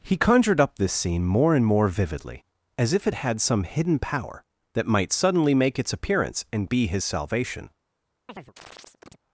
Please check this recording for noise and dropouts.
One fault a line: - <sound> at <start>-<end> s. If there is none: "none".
- chirp at 8.3-9.2 s